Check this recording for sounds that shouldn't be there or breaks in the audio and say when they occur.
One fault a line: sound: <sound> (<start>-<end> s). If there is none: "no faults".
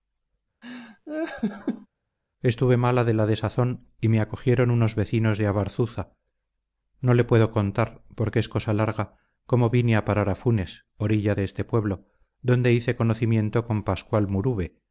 sound: laugh (0.6-1.9 s)